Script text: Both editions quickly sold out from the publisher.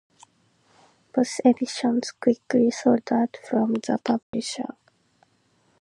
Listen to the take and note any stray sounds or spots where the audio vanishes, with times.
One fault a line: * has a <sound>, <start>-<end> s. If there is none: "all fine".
* has a dropout, 4.2-4.3 s